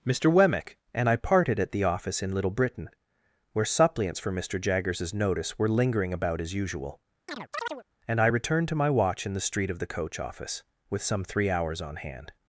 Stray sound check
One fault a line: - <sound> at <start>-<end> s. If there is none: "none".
- chirp at 7.3-7.8 s